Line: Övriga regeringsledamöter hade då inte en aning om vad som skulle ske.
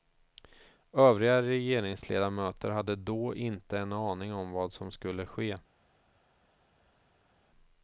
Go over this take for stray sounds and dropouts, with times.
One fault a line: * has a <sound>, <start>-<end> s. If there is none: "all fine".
all fine